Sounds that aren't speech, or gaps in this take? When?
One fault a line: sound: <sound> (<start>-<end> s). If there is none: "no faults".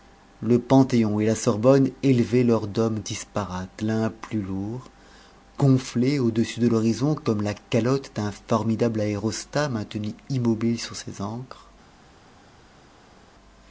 no faults